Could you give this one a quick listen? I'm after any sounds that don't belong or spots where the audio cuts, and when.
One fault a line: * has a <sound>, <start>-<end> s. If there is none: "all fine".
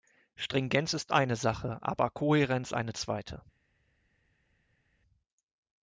all fine